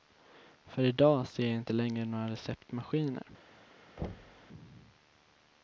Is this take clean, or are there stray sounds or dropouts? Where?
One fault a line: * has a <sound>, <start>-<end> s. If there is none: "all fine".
* has a thud, 4.0-4.5 s